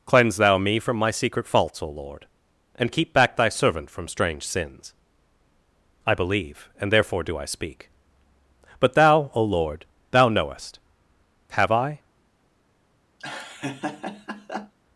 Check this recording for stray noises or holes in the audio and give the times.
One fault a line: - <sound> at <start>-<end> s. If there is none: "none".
- laugh at 13.2-14.7 s